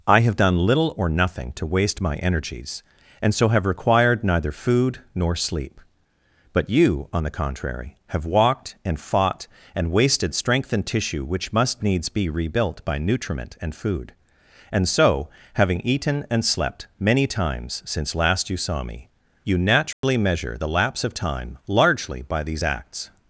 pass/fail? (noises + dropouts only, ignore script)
fail